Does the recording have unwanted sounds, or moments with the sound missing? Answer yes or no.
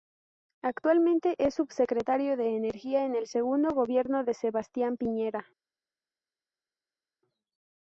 no